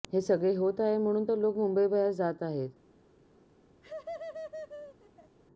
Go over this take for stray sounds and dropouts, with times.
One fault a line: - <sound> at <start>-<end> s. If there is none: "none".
- laugh at 3.8-5.4 s